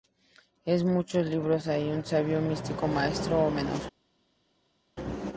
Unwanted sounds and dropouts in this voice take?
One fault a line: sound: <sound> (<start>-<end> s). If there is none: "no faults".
no faults